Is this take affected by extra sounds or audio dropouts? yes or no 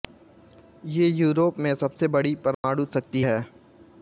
yes